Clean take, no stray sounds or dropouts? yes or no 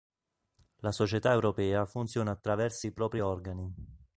yes